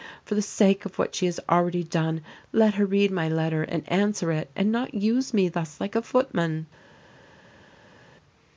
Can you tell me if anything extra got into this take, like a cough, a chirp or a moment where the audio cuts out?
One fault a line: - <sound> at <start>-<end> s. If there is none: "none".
none